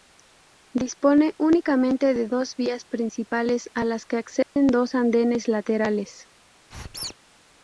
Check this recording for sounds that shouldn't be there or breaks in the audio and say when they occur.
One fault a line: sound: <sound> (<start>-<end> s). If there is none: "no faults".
sound: dropout (4.4-4.6 s)
sound: squeak (6.7-7.1 s)